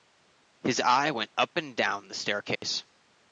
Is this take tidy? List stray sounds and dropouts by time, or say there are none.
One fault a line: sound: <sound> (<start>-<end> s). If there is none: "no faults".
sound: dropout (2.6-2.6 s)